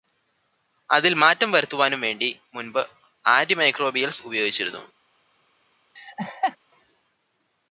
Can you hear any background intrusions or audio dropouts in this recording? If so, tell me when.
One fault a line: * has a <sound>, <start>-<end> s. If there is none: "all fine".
* has a laugh, 6.0-6.6 s